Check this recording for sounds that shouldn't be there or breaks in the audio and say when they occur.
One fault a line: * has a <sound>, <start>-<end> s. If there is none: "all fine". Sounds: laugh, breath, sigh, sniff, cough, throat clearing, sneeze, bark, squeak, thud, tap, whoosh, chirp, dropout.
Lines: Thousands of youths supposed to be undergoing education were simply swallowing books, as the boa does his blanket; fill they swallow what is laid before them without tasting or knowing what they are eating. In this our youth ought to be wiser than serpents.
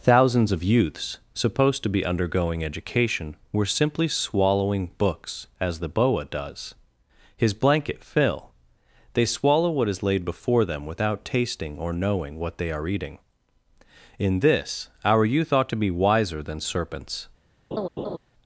* has a laugh, 17.7-18.2 s